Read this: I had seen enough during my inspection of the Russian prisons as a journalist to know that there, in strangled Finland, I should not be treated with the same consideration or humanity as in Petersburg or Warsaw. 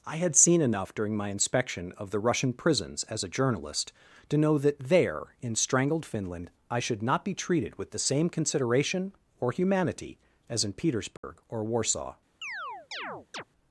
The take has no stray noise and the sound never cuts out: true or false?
false